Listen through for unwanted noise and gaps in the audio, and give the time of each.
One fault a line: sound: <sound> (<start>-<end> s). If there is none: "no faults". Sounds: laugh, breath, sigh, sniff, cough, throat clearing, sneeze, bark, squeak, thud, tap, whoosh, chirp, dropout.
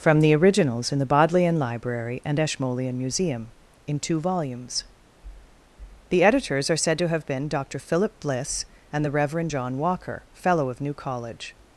no faults